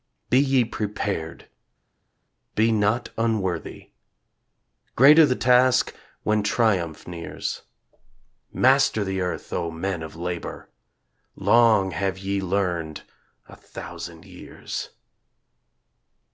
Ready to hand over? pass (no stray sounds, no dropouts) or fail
pass